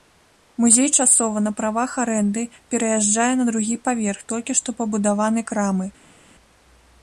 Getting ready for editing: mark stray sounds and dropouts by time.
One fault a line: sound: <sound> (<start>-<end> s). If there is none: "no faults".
no faults